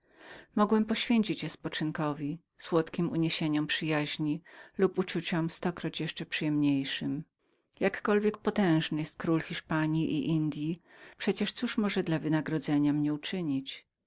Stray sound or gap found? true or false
false